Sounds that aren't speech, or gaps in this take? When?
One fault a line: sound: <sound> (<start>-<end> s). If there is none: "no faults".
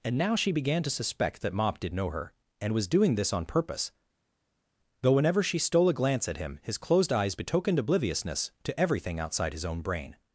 no faults